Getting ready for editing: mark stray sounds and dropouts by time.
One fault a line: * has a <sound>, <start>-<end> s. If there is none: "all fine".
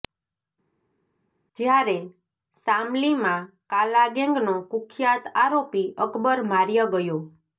all fine